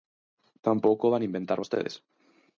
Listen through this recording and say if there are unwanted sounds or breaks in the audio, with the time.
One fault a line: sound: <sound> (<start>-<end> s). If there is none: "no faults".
no faults